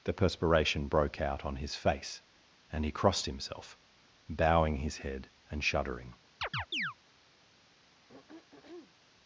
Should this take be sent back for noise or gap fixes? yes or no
yes